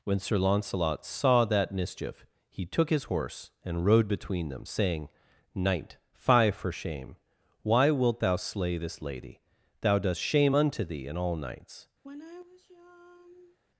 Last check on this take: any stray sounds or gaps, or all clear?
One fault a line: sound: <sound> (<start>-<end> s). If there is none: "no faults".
sound: sigh (12.0-13.6 s)